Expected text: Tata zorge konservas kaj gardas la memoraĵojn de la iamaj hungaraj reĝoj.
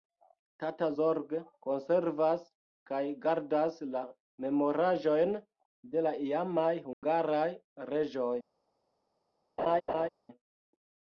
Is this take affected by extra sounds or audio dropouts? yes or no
yes